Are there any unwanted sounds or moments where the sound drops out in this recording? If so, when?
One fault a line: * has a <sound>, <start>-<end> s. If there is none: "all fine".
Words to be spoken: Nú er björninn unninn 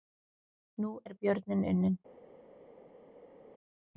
all fine